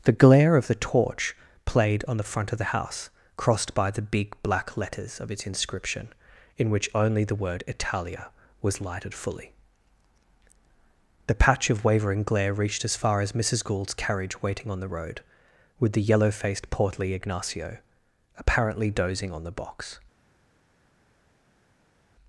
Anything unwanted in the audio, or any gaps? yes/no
no